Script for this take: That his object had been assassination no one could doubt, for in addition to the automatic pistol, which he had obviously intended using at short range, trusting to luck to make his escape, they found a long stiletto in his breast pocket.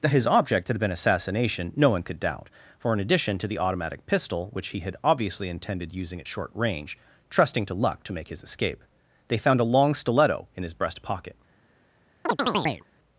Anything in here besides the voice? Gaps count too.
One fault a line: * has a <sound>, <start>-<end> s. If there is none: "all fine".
* has a chirp, 12.3-12.8 s